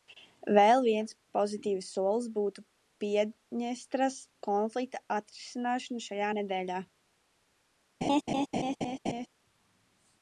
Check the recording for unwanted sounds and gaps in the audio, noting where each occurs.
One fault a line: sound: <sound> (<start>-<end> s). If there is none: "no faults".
sound: laugh (8.0-9.3 s)